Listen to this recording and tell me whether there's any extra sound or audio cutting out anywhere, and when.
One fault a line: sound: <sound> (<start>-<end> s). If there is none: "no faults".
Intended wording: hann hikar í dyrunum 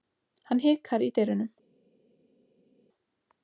no faults